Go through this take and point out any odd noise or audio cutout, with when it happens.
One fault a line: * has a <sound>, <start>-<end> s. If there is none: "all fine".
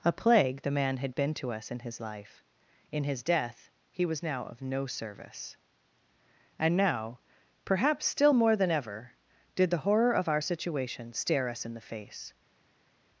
all fine